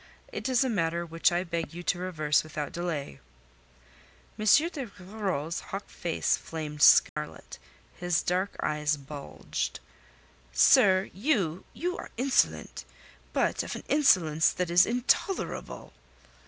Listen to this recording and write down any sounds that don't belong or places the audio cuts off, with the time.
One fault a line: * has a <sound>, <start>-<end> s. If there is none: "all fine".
* has a dropout, 7.1-7.2 s